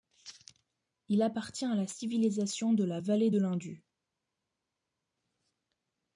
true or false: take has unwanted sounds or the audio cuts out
false